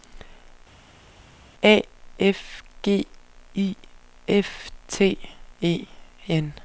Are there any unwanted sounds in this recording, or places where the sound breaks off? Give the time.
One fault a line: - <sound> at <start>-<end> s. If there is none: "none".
none